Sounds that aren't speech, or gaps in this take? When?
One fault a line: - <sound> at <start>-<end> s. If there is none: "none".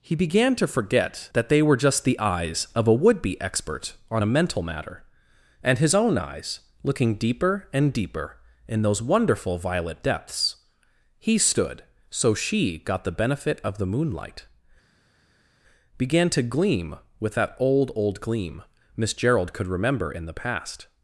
none